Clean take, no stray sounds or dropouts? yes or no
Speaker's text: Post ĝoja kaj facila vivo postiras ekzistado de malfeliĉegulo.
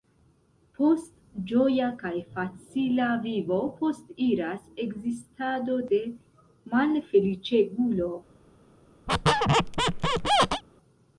no